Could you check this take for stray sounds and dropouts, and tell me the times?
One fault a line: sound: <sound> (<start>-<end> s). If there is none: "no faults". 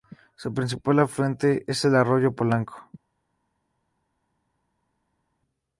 no faults